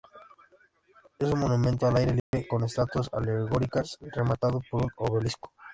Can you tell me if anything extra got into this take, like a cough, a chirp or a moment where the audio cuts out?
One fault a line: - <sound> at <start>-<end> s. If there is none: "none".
- dropout at 2.2-2.3 s